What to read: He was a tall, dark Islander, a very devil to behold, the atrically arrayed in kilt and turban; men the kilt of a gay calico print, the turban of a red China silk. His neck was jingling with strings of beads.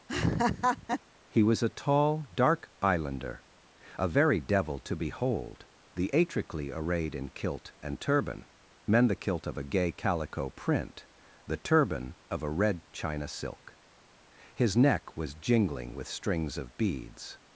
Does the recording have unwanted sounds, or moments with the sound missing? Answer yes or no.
yes